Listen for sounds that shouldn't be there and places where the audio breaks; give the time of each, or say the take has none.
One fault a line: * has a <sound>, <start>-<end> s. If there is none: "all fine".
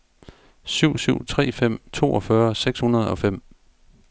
all fine